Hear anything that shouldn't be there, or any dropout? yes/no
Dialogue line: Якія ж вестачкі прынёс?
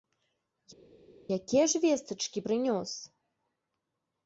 no